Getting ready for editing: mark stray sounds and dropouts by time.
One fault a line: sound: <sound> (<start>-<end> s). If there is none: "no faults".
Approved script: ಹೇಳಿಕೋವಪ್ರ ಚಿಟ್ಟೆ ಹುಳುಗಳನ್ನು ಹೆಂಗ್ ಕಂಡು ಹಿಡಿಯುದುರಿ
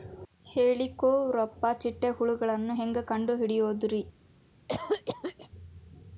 sound: cough (4.7-5.5 s)